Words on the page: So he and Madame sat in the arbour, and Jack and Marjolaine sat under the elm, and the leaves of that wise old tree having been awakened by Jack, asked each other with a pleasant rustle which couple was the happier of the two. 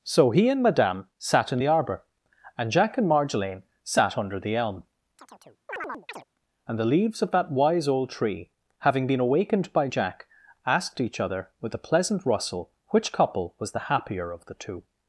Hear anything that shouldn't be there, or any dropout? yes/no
yes